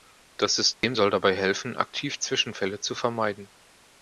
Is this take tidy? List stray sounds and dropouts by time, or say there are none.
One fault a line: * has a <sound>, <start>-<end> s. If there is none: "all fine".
* has a dropout, 0.7-0.8 s